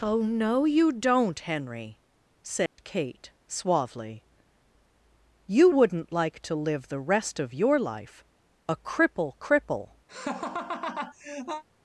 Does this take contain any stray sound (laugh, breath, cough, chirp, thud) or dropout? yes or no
yes